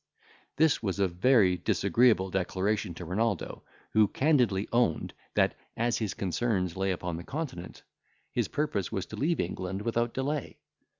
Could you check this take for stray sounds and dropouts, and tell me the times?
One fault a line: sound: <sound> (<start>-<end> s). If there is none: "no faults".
no faults